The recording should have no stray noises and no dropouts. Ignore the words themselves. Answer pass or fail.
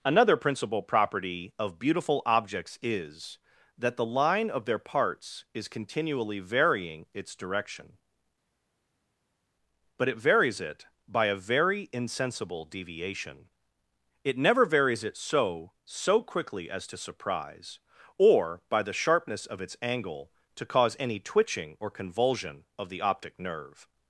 pass